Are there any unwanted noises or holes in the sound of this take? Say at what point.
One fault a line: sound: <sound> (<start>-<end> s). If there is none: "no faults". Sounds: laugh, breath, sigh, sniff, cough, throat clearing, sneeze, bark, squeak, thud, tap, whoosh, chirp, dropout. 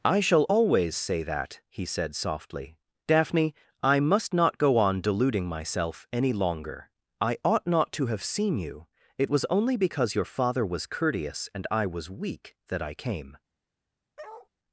sound: bark (14.2-14.5 s)